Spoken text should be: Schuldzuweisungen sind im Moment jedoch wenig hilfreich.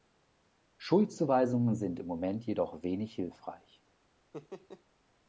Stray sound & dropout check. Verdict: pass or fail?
fail